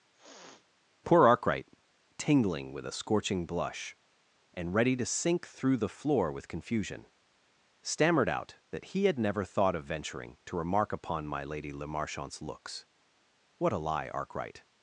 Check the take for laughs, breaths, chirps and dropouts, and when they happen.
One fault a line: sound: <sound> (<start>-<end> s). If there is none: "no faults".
sound: sniff (0.1-0.7 s)